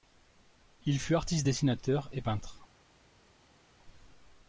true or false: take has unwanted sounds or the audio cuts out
false